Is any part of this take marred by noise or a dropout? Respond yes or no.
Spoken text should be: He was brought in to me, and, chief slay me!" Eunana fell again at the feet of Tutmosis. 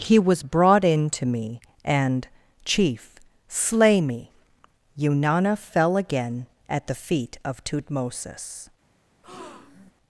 yes